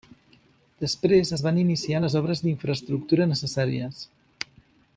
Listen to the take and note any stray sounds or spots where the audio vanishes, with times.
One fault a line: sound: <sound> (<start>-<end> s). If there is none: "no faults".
no faults